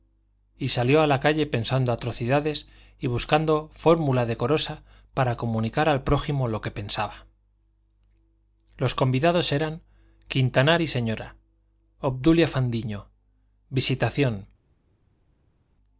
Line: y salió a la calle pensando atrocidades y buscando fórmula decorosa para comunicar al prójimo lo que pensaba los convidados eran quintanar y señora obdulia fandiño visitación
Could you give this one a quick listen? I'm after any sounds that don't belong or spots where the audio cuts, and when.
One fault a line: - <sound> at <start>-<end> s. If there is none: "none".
none